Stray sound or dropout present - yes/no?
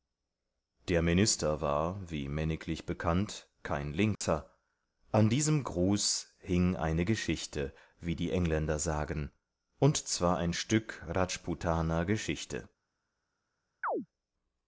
yes